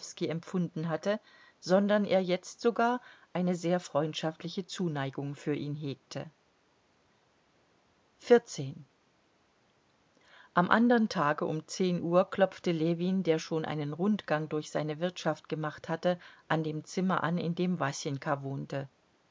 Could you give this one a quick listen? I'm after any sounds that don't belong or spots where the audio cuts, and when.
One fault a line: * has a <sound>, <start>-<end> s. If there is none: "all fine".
all fine